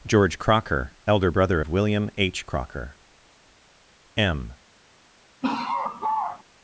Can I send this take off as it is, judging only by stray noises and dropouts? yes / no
no